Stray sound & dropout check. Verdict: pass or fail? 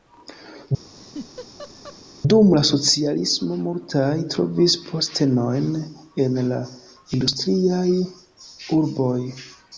fail